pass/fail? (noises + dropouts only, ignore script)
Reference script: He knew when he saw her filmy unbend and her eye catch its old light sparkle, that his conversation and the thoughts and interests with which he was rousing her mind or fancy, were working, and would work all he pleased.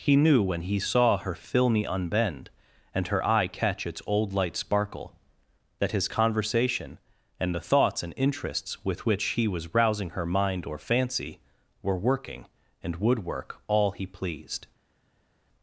pass